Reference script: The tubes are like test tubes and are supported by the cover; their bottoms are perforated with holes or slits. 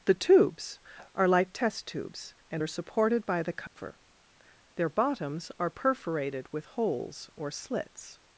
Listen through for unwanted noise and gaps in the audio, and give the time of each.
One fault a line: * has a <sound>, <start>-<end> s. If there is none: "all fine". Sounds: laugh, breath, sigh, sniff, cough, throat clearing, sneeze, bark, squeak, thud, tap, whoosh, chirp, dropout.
* has a dropout, 3.7-3.8 s